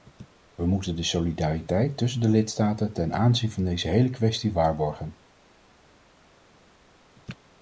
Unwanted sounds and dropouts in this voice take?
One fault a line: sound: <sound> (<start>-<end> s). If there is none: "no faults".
no faults